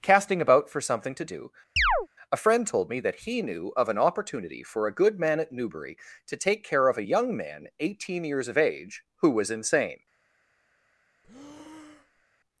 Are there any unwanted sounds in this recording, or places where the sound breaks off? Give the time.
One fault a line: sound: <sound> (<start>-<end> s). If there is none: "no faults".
sound: chirp (1.8-2.1 s)
sound: breath (11.2-12.3 s)